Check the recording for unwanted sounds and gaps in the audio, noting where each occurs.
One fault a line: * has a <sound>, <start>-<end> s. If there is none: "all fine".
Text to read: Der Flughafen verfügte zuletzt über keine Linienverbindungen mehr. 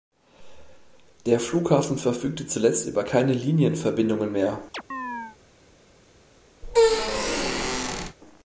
* has a chirp, 4.7-5.4 s
* has a squeak, 6.6-8.2 s